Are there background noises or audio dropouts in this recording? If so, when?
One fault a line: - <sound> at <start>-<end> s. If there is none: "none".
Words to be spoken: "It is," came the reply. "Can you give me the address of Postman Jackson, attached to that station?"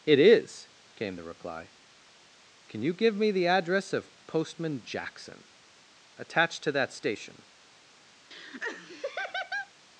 - laugh at 8.3-9.7 s